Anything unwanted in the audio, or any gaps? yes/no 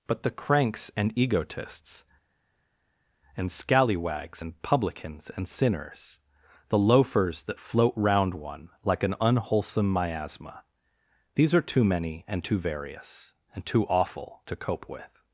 no